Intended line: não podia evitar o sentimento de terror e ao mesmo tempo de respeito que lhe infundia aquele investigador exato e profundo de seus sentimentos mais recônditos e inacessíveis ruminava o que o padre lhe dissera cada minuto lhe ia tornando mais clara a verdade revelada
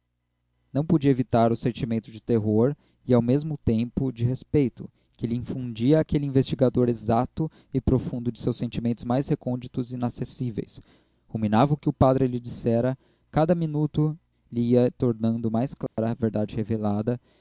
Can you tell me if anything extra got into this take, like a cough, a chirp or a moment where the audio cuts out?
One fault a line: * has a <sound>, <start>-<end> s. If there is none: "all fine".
* has a dropout, 15.9-16.0 s